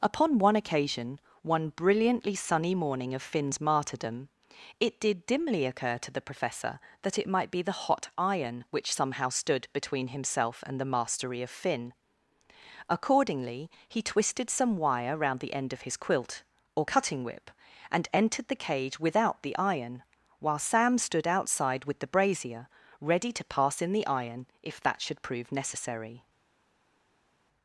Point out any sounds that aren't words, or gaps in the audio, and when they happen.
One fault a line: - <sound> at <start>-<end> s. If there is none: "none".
none